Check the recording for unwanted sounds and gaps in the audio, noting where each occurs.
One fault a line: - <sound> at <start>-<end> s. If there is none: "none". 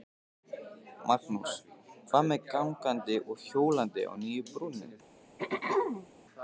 - throat clearing at 5.4-6.1 s